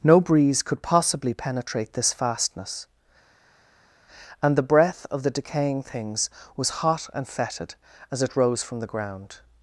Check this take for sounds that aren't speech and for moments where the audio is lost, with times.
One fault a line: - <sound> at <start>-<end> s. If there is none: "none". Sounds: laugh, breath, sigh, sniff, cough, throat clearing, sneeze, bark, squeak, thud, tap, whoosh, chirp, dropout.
none